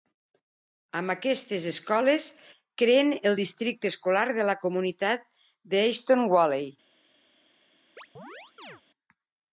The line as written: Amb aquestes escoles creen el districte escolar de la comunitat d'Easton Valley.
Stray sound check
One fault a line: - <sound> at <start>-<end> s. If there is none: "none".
- chirp at 8.0-8.8 s